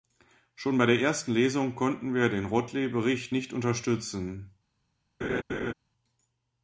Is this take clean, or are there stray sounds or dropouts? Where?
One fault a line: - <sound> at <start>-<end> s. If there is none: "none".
- laugh at 5.2-5.7 s